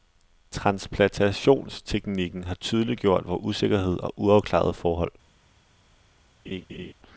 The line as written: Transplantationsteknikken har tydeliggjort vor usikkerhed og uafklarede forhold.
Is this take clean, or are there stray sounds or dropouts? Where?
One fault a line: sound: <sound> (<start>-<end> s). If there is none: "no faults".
sound: laugh (6.5-6.9 s)